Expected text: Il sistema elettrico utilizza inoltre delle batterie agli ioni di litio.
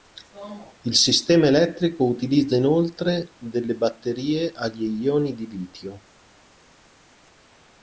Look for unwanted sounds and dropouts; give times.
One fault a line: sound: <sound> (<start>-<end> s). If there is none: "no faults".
no faults